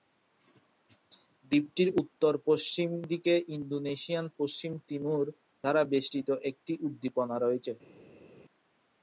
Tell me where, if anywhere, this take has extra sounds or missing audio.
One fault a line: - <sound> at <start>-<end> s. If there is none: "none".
none